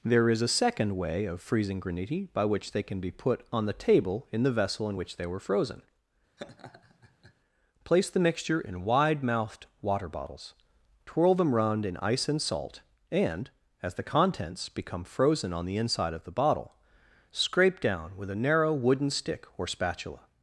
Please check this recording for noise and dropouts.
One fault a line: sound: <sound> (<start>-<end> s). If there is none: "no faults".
sound: laugh (6.4-7.3 s)